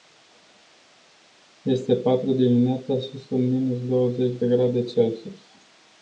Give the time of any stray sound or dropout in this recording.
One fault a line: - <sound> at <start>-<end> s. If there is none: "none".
none